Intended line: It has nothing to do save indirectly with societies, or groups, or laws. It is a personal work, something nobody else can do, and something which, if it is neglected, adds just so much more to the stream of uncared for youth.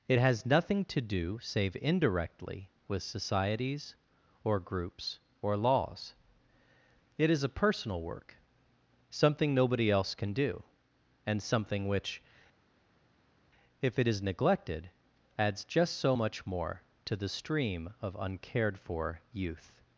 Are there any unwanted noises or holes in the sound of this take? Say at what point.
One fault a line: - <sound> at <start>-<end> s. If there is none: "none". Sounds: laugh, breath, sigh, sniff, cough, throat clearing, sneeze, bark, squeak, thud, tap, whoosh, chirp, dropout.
none